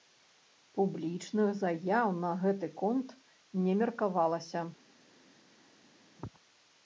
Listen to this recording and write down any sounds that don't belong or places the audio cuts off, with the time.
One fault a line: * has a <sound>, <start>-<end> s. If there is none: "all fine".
all fine